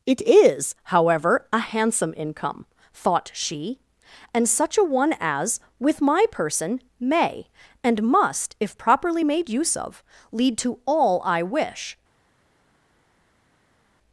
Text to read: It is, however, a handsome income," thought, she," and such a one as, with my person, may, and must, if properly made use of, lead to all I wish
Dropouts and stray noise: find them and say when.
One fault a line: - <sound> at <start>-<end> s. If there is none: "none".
none